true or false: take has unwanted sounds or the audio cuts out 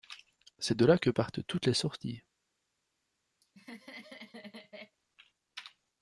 true